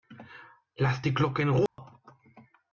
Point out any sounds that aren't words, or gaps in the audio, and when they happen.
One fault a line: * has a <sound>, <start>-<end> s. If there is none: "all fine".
* has a dropout, 1.7-1.8 s